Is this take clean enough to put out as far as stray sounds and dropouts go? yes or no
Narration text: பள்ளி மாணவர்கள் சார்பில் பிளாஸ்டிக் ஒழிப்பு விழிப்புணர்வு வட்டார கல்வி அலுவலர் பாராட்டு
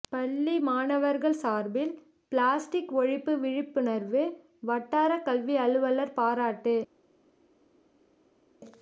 yes